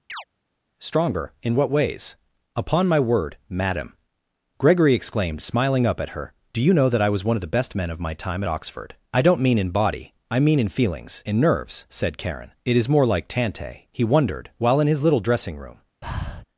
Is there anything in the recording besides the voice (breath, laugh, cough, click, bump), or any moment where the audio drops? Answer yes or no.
yes